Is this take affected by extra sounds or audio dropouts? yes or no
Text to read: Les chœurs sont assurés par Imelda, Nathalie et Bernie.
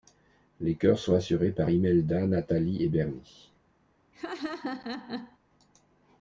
yes